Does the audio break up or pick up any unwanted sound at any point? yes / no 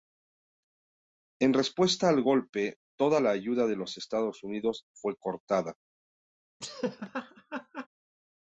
yes